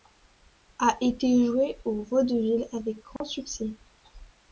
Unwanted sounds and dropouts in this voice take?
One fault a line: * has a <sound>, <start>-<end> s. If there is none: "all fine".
* has a dropout, 3.2-3.2 s